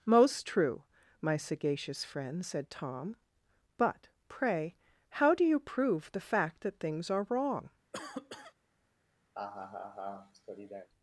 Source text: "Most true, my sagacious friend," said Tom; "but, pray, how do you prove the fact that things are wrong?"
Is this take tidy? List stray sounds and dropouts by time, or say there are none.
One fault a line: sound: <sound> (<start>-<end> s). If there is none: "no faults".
sound: cough (7.9-8.5 s)
sound: laugh (9.3-10.9 s)